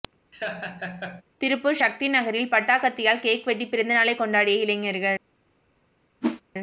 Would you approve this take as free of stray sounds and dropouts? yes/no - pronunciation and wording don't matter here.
no